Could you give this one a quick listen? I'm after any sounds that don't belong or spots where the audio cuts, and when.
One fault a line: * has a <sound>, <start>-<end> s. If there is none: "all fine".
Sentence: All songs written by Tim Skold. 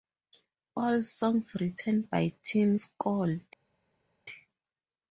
all fine